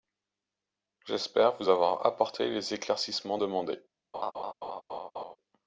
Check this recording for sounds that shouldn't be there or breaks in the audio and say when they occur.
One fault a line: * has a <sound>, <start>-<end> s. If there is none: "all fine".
* has a laugh, 4.1-5.4 s